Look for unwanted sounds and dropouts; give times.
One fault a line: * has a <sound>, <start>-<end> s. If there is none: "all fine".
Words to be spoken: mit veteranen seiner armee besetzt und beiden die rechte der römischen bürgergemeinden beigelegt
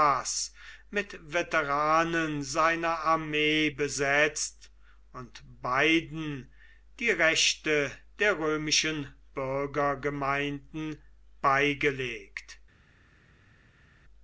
all fine